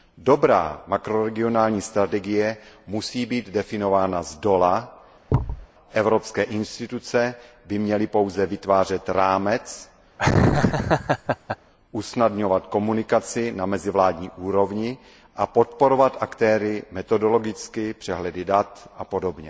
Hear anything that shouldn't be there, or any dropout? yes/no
yes